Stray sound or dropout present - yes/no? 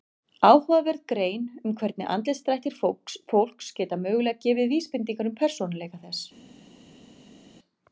no